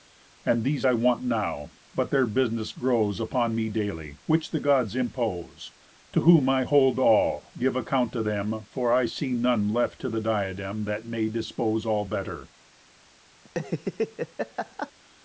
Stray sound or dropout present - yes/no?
yes